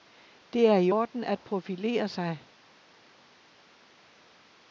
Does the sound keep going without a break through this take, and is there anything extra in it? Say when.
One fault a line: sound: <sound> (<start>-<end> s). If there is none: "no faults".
no faults